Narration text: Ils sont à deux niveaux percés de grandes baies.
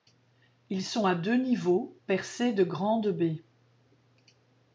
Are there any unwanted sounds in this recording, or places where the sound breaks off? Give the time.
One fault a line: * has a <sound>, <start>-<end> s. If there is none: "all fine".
all fine